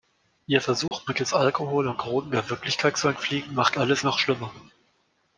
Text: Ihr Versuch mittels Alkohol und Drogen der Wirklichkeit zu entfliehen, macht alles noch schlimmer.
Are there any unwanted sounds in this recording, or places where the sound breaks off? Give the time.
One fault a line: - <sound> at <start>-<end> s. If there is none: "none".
- dropout at 0.9-0.9 s